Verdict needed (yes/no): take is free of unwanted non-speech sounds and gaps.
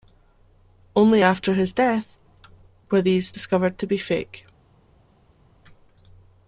yes